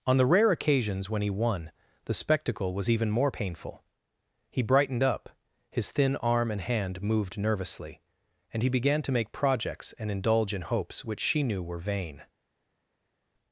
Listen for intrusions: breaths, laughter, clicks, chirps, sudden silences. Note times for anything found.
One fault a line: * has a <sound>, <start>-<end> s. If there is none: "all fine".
all fine